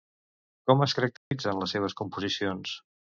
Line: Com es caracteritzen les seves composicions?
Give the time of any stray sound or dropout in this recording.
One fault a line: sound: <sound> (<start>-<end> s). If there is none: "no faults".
sound: dropout (1.2-1.3 s)